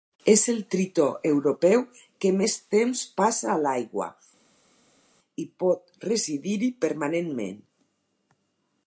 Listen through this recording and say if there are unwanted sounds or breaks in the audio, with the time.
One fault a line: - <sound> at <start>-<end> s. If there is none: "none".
none